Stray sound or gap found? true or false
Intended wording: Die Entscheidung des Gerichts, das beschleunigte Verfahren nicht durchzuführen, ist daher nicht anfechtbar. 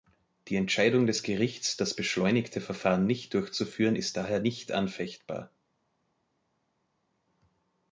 false